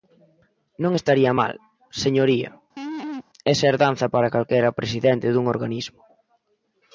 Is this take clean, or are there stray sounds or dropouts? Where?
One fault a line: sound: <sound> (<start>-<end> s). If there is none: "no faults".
sound: laugh (2.8-3.2 s)